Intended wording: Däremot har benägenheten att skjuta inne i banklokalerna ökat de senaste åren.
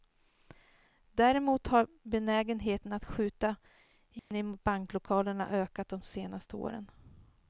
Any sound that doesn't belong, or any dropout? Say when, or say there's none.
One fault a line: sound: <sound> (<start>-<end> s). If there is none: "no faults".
sound: dropout (4.2-4.3 s)